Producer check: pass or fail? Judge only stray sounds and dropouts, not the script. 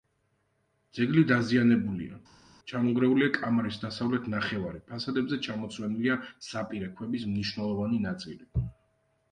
pass